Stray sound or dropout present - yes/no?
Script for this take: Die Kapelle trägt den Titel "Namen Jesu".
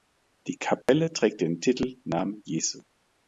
yes